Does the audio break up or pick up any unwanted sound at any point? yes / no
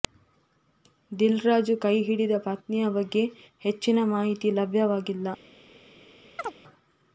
yes